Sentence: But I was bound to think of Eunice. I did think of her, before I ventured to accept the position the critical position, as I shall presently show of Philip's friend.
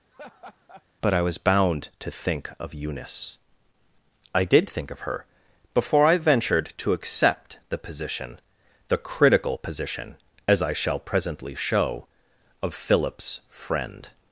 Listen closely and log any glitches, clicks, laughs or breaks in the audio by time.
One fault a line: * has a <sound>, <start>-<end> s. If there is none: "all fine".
* has a laugh, 0.1-0.9 s